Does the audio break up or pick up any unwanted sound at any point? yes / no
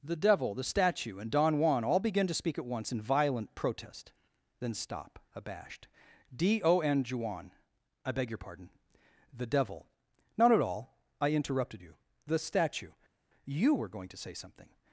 no